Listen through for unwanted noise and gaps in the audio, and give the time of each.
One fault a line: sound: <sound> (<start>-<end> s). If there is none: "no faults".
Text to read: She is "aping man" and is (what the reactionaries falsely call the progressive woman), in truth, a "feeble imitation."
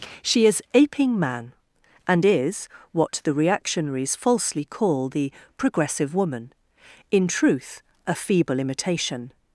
no faults